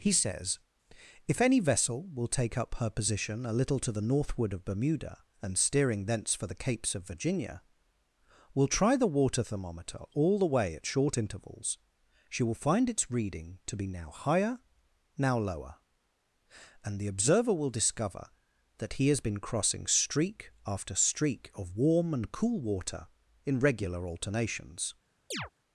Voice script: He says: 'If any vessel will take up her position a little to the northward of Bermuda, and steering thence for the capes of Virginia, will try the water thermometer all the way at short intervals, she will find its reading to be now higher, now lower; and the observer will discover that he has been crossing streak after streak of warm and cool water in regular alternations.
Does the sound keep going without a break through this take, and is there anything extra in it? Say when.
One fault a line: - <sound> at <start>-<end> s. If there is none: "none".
- chirp at 25.3-25.5 s